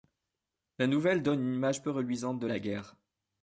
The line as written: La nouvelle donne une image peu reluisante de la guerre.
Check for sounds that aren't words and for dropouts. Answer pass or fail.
pass